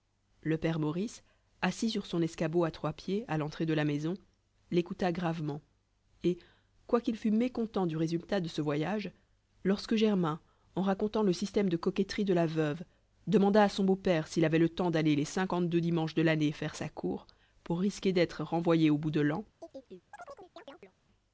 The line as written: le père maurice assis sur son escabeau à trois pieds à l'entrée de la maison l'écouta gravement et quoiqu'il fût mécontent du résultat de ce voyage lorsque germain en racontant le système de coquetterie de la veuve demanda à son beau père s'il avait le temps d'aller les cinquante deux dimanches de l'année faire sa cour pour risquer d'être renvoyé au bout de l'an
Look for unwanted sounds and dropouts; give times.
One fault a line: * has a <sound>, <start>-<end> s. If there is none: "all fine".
* has a chirp, 19.6-20.9 s